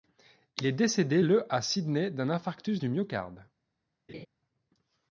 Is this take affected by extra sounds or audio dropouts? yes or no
yes